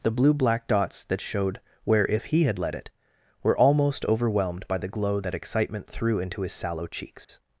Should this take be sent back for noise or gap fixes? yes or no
yes